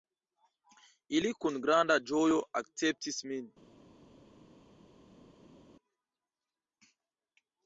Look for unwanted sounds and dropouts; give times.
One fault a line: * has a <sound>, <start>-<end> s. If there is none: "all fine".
all fine